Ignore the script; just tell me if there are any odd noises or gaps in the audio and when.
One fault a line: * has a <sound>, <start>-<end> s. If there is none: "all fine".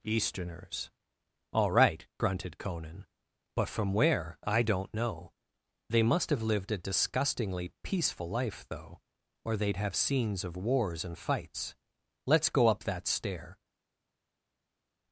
all fine